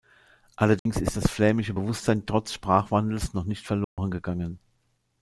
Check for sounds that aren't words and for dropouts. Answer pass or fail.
fail